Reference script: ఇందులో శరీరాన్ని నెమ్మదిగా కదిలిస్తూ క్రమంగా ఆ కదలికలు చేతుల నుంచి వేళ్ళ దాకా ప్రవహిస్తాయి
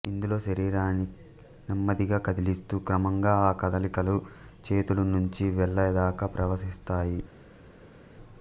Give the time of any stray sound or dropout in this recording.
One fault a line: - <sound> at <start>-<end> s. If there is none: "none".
none